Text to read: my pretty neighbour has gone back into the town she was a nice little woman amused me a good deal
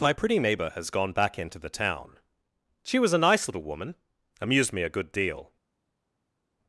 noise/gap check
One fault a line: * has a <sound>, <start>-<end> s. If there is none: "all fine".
all fine